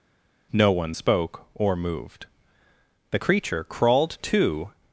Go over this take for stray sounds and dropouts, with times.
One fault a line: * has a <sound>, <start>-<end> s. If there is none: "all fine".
all fine